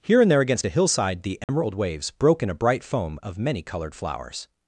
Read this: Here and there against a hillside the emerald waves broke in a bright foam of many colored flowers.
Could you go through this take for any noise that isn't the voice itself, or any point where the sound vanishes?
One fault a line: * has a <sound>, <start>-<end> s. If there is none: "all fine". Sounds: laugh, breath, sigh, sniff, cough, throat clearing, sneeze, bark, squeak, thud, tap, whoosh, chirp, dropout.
* has a dropout, 1.4-1.5 s